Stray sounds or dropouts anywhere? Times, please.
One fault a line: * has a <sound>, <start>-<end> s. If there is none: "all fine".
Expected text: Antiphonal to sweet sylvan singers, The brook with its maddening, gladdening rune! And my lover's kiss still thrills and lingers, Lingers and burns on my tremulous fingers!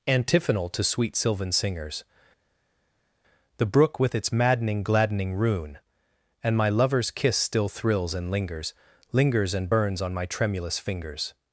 all fine